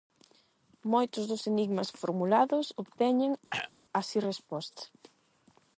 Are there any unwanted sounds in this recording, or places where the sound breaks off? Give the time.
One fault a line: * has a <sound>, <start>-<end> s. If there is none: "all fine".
* has a throat clearing, 3.5-3.7 s